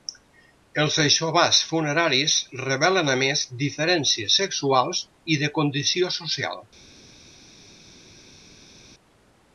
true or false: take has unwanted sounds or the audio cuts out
false